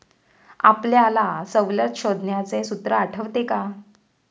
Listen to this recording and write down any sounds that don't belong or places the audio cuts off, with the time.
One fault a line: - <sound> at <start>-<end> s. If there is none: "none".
none